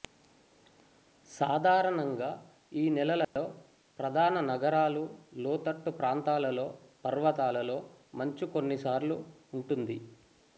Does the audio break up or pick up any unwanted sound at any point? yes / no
yes